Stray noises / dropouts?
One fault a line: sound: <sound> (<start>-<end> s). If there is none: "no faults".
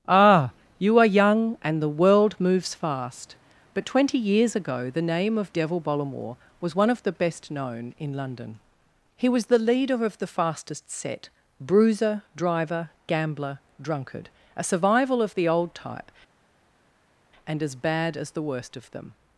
no faults